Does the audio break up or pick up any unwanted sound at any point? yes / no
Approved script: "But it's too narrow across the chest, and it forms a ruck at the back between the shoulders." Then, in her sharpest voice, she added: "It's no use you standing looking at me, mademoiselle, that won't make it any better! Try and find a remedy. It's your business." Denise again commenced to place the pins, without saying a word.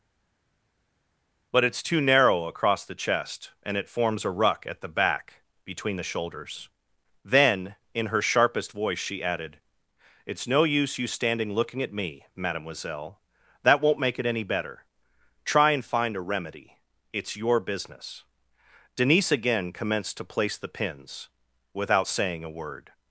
no